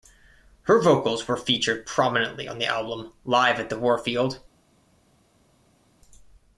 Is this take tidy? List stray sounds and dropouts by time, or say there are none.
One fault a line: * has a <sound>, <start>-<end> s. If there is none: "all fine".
all fine